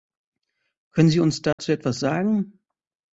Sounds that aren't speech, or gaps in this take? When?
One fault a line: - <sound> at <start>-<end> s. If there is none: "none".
- dropout at 1.5-1.6 s